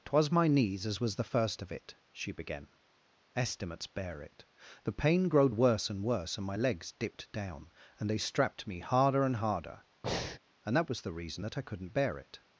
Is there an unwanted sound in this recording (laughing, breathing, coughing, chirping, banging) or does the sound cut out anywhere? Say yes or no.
yes